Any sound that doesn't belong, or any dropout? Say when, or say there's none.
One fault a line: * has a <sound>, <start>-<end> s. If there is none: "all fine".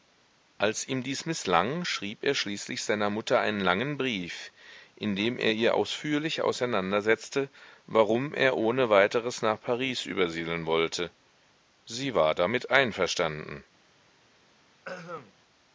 * has a throat clearing, 14.8-15.3 s